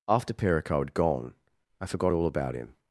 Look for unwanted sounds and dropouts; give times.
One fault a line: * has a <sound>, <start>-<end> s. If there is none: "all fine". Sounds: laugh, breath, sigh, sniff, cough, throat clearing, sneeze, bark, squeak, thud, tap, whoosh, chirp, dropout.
all fine